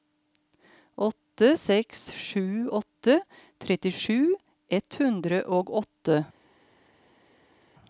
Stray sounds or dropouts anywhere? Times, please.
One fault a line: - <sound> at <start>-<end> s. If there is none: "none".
none